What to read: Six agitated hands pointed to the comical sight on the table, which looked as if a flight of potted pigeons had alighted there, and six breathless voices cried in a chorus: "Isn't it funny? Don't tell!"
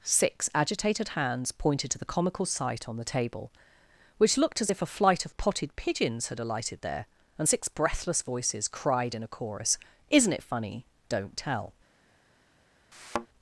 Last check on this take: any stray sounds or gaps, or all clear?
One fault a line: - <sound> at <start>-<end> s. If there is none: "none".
- thud at 12.9-13.3 s